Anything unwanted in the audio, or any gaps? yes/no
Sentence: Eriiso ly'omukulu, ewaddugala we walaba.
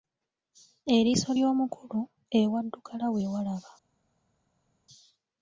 no